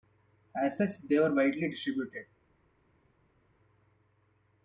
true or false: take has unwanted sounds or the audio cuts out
false